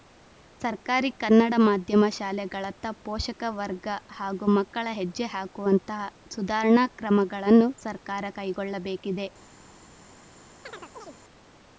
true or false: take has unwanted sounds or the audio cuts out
true